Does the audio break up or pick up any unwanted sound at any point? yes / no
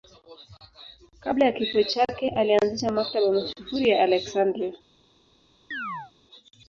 yes